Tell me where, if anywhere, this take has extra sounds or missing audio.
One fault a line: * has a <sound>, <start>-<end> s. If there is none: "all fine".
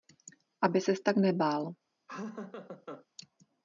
* has a laugh, 2.1-3.1 s